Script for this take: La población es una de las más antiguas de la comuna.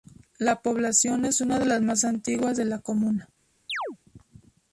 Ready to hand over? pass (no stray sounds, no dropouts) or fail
fail